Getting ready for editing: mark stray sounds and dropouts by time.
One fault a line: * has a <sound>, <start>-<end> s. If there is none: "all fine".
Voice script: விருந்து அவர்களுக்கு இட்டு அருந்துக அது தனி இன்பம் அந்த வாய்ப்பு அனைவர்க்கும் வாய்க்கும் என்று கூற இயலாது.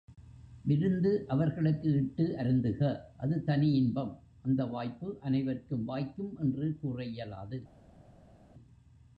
all fine